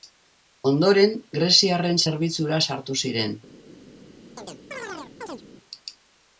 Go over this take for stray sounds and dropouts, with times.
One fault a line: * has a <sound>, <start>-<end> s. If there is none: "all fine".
* has a chirp, 4.4-5.4 s